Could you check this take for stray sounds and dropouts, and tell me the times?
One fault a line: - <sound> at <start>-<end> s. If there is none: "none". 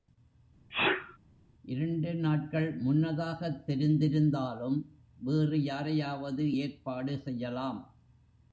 - sneeze at 0.7-1.2 s